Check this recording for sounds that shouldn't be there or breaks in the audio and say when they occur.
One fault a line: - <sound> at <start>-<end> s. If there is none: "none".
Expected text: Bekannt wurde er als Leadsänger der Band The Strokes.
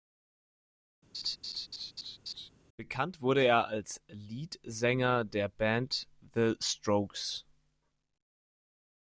- laugh at 1.1-2.5 s